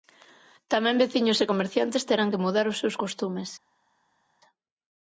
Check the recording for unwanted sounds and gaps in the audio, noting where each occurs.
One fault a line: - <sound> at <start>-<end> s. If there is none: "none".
none